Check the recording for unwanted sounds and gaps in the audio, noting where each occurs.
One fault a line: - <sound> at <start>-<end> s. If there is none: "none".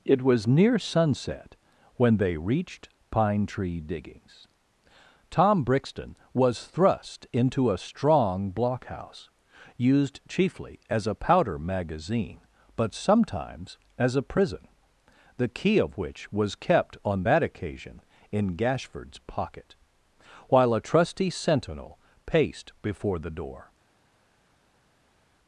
none